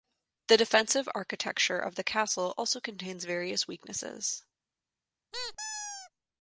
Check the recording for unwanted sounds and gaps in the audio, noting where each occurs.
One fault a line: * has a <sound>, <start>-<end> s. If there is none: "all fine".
* has a squeak, 5.3-6.1 s